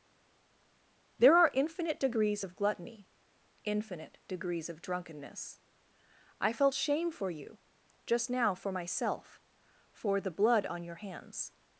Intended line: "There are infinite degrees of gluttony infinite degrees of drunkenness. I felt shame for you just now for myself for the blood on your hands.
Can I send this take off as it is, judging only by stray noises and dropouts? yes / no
yes